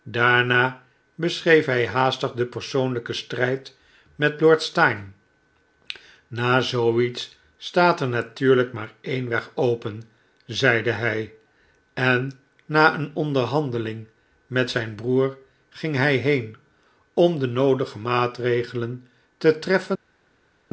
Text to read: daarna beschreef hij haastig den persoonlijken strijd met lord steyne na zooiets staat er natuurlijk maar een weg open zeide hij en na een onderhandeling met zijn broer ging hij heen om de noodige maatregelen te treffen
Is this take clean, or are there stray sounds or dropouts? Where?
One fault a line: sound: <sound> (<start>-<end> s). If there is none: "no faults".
no faults